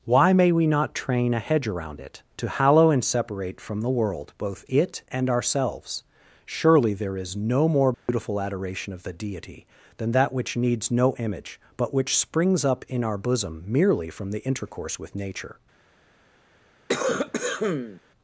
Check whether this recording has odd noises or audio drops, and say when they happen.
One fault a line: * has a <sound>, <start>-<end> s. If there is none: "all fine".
* has a dropout, 7.9-8.1 s
* has a cough, 16.9-18.0 s